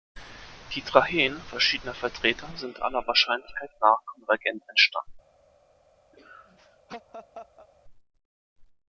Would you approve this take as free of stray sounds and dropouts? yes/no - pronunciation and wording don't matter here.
no